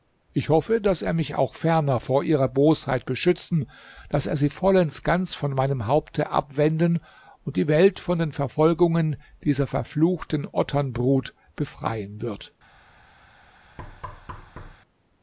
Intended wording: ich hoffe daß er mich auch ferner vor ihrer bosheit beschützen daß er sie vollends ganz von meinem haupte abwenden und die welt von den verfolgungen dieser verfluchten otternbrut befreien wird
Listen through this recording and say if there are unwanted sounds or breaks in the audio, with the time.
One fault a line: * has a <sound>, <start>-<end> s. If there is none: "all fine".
* has a thud, 13.8-14.8 s